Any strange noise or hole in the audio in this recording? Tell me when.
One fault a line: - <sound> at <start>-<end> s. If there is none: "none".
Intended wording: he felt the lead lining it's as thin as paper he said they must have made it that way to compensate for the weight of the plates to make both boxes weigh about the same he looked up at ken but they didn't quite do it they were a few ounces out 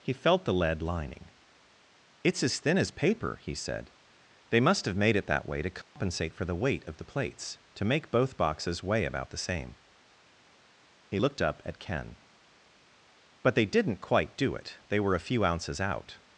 - dropout at 5.8-6.0 s